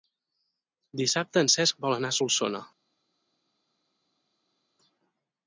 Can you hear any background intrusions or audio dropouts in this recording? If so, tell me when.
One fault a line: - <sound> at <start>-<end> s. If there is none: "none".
none